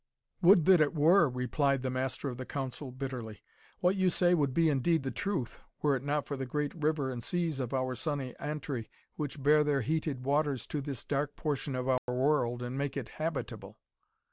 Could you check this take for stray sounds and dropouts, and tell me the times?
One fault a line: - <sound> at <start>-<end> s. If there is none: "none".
- dropout at 12.0-12.1 s